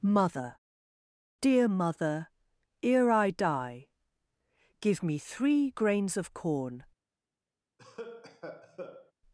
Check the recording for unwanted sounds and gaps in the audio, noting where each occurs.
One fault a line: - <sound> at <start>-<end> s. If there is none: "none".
- cough at 7.8-9.1 s